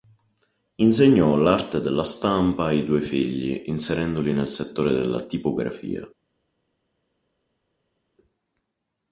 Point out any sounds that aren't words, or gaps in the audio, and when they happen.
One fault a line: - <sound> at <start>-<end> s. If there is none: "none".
none